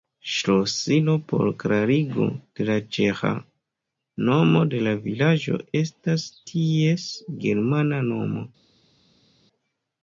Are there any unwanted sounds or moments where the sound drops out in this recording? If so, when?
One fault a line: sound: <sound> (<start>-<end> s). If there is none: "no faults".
no faults